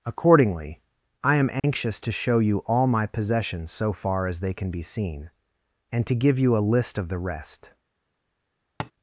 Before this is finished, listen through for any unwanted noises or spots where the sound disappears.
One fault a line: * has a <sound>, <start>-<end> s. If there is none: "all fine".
* has a dropout, 1.6-1.6 s
* has a tap, 8.8-8.9 s